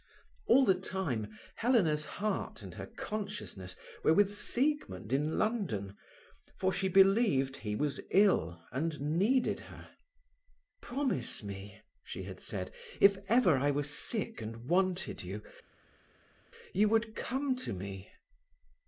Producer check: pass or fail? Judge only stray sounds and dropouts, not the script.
pass